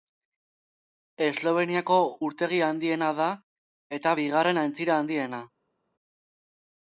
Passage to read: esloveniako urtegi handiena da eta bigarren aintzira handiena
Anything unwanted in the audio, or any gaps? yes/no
no